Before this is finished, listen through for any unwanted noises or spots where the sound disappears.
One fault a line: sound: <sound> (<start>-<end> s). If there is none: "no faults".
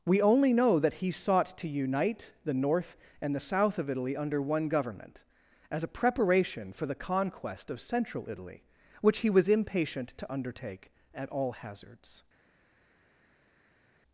no faults